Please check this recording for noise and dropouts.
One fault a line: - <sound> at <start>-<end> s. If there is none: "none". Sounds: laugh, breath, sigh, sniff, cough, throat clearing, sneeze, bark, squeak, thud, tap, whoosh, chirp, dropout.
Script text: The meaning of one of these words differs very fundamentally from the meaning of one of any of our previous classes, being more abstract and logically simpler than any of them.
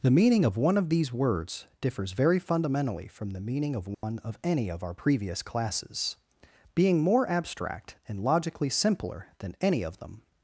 - dropout at 3.9-4.0 s